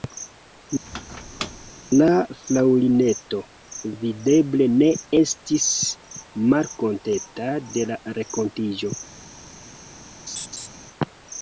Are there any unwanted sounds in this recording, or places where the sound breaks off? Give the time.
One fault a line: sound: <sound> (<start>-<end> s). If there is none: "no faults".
sound: squeak (0.9-1.7 s)
sound: laugh (10.3-10.7 s)